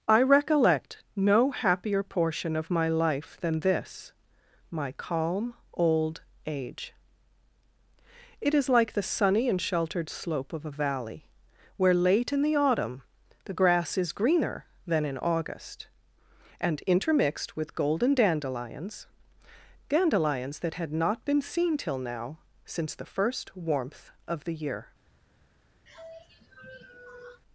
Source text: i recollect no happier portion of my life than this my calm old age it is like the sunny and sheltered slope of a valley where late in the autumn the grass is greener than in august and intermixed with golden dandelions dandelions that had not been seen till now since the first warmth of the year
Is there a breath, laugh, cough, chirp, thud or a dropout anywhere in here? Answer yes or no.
yes